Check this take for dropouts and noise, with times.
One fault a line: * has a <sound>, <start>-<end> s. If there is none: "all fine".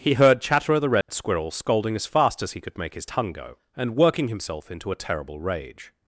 * has a dropout, 1.0-1.1 s